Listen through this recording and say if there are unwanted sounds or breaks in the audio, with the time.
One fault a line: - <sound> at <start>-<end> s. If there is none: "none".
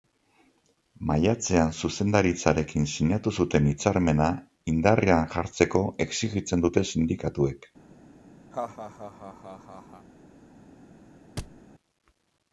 - laugh at 8.5-10.1 s
- thud at 11.4-11.6 s